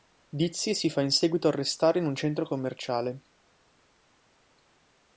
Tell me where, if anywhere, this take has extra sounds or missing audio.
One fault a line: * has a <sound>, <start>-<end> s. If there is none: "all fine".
all fine